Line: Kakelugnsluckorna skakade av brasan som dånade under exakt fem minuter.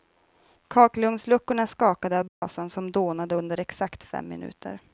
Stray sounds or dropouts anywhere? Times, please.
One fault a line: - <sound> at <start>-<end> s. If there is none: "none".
- dropout at 2.3-2.4 s